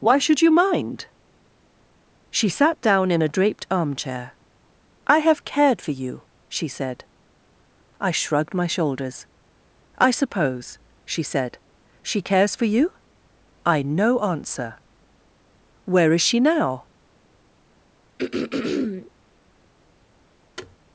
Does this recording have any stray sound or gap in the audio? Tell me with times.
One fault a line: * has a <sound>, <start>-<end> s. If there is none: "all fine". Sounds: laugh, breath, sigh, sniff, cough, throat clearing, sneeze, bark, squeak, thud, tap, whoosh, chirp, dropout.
* has a throat clearing, 18.2-19.1 s
* has a thud, 20.6-20.8 s